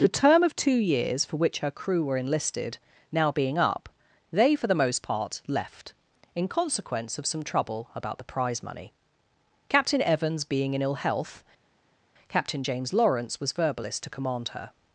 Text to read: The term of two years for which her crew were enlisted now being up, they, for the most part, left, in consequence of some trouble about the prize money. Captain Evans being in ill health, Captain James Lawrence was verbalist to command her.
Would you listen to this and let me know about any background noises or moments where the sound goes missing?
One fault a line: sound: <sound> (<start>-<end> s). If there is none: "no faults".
no faults